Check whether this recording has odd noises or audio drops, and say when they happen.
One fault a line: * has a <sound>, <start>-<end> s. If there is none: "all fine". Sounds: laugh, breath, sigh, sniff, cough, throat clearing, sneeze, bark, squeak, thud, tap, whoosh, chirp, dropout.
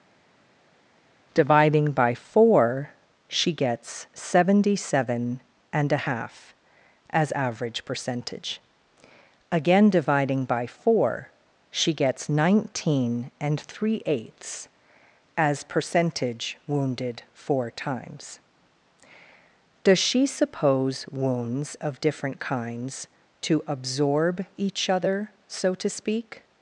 all fine